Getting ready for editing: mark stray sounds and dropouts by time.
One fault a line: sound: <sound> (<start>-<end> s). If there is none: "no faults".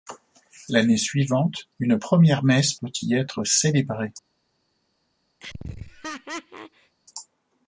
sound: laugh (5.4-7.0 s)